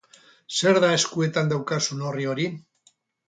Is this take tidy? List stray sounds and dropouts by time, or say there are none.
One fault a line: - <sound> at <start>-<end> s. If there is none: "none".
none